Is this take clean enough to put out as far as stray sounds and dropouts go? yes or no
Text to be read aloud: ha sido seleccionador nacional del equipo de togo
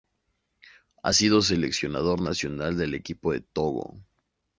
yes